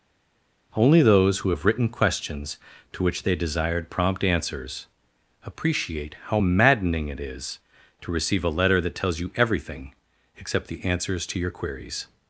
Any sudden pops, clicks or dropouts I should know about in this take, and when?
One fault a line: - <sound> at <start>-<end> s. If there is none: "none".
none